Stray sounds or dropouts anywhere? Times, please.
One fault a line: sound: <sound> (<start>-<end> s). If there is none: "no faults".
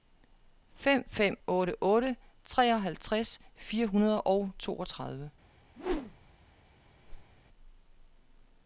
sound: whoosh (5.8-6.3 s)
sound: whoosh (7.0-7.4 s)